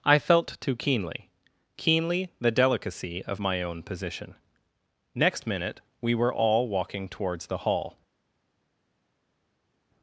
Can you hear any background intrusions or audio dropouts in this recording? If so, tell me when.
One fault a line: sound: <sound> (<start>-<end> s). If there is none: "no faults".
no faults